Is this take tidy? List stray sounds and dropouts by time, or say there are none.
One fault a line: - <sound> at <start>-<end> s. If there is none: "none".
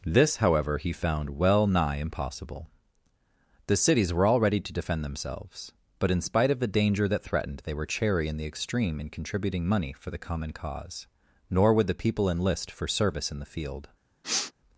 - sniff at 14.2-14.5 s